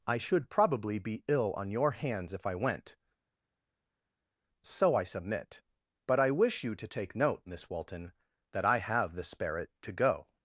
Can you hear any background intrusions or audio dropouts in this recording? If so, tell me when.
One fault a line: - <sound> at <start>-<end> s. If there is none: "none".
none